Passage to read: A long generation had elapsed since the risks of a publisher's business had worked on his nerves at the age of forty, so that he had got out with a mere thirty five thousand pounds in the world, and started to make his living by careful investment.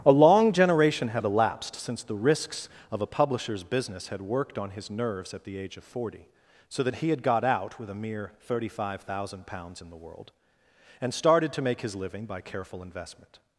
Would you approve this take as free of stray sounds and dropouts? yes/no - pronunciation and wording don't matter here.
yes